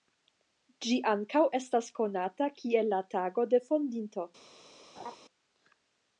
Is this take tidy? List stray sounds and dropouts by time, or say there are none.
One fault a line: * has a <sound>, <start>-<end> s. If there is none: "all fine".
* has a laugh, 5.0-5.2 s